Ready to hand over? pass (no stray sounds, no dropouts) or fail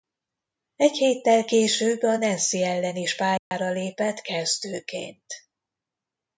fail